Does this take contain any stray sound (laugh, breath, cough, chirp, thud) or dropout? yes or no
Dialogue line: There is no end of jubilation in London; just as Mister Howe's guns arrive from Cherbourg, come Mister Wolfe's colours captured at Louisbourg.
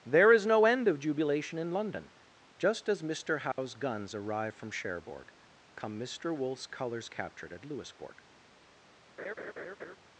yes